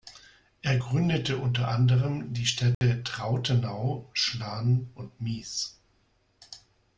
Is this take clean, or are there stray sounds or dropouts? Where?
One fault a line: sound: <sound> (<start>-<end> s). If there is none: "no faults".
sound: dropout (2.7-2.8 s)